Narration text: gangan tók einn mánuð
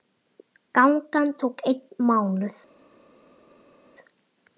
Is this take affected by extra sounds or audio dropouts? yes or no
no